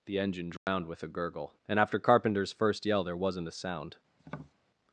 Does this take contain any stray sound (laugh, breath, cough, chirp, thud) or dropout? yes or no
yes